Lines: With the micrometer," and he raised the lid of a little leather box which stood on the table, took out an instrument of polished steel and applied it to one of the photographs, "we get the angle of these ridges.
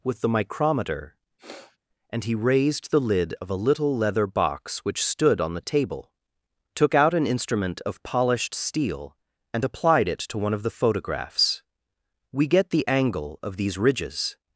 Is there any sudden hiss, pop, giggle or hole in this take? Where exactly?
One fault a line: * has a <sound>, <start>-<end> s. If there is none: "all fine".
* has a sniff, 1.4-1.8 s